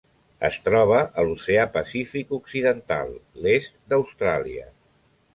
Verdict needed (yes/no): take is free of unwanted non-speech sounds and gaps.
yes